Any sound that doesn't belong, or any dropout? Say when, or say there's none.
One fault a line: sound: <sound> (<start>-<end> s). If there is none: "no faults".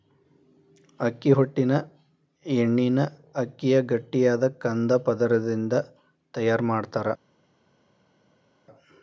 no faults